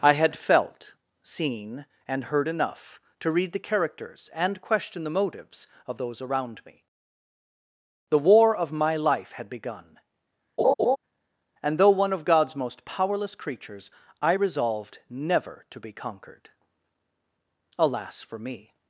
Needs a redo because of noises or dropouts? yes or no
yes